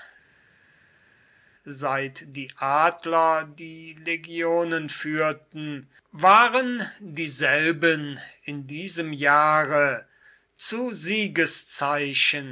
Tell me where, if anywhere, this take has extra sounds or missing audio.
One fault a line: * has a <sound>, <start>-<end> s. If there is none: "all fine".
all fine